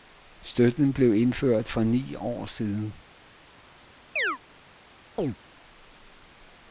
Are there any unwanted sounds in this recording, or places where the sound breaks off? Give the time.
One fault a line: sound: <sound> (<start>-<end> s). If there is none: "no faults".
sound: chirp (4.2-4.4 s)
sound: chirp (5.2-5.4 s)